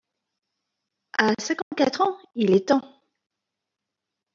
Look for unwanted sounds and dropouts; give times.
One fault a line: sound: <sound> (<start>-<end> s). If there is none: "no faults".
sound: dropout (1.6-1.7 s)